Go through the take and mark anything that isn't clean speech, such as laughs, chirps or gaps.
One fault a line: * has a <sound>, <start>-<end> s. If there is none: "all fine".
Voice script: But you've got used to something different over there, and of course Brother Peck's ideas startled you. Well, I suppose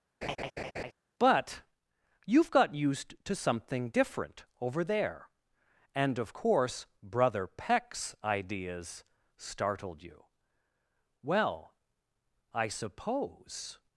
* has a laugh, 0.2-0.9 s